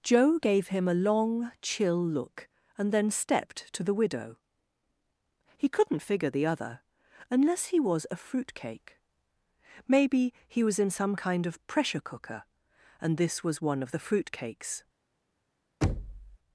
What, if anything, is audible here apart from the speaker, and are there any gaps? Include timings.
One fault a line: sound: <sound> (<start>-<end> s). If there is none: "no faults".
sound: thud (15.8-16.4 s)